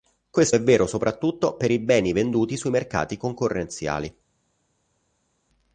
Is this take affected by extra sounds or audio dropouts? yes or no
no